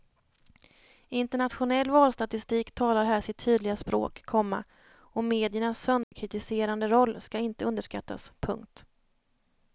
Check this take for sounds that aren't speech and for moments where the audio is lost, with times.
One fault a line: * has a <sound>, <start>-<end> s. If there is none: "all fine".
* has a dropout, 6.0-6.1 s